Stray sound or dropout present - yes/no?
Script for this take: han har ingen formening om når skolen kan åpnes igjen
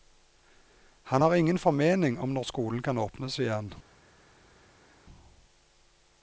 no